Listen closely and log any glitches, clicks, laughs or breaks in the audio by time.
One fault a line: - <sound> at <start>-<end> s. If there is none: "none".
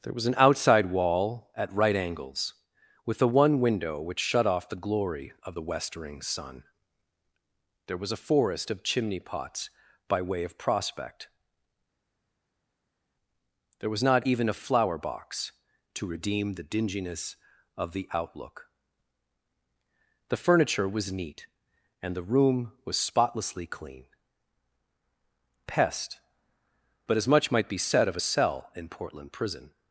none